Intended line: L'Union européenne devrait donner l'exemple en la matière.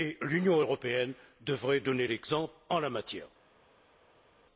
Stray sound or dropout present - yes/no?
no